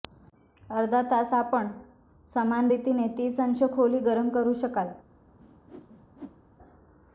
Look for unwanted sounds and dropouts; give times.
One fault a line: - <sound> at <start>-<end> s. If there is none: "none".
- whoosh at 5.4-6.5 s